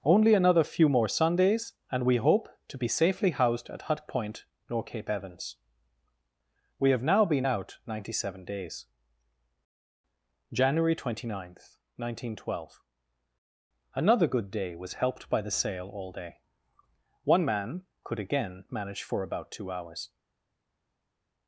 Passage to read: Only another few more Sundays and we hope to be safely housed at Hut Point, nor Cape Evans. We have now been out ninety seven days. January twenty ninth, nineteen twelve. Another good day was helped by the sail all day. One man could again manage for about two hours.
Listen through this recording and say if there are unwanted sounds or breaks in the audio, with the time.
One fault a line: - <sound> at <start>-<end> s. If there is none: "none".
none